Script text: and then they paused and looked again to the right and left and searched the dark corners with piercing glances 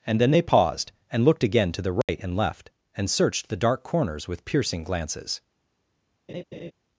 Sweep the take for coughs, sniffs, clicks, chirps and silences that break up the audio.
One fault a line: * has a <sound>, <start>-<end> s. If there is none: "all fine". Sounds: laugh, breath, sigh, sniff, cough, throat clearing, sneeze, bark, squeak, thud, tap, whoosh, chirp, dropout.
* has a dropout, 2.0-2.1 s
* has a laugh, 6.3-6.7 s